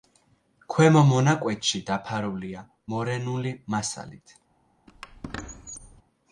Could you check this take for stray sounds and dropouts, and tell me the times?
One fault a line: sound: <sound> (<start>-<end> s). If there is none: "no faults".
sound: squeak (4.9-6.0 s)